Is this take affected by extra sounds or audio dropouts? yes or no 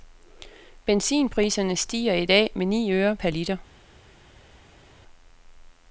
no